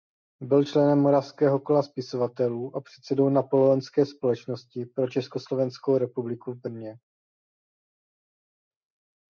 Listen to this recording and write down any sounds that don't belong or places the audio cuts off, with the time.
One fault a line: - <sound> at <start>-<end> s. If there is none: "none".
none